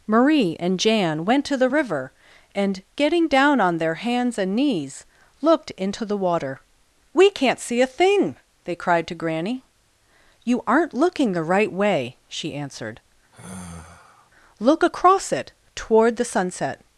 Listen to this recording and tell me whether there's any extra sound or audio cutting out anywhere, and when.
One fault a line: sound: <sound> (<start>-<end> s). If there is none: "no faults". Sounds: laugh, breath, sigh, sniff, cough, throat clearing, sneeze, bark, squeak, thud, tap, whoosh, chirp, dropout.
sound: sigh (13.3-14.3 s)